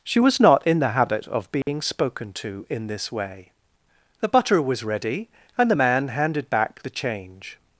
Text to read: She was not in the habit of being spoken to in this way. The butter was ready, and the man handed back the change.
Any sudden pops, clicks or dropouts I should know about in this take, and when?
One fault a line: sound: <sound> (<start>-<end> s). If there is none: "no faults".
sound: dropout (1.6-1.7 s)